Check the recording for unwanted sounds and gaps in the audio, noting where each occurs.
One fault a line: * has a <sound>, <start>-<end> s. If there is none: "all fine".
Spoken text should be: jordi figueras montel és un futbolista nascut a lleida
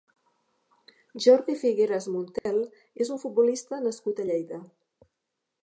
* has a dropout, 2.4-2.5 s